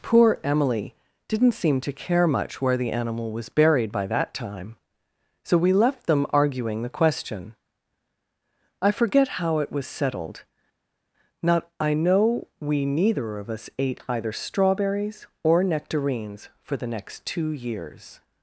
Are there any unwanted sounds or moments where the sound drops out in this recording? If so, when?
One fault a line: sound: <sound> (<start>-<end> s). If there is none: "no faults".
no faults